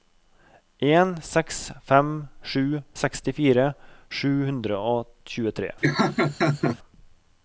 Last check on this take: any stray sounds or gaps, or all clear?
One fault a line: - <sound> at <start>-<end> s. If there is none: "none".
- laugh at 5.8-6.8 s